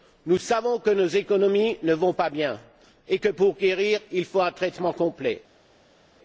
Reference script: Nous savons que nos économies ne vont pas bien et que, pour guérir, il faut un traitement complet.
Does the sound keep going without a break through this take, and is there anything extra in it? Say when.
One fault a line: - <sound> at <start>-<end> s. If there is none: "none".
none